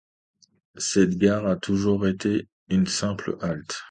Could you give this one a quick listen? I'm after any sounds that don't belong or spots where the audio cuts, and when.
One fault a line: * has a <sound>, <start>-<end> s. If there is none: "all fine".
all fine